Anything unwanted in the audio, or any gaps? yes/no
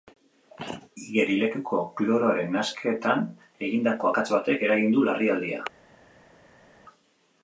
no